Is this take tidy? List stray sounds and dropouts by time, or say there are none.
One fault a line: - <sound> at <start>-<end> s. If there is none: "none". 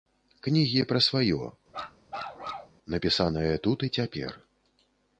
- bark at 1.7-2.8 s